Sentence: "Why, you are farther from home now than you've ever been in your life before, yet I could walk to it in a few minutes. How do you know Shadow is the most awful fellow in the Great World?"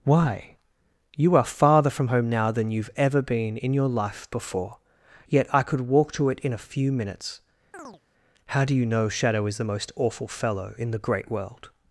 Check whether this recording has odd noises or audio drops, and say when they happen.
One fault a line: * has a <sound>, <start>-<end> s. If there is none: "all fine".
* has a chirp, 7.7-8.0 s